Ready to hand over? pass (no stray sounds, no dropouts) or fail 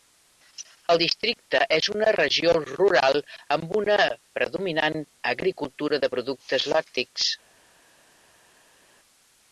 pass